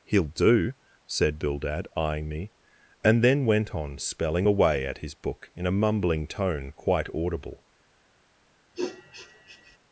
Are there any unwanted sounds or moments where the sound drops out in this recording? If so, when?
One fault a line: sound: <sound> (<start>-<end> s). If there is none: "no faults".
sound: sniff (8.7-9.8 s)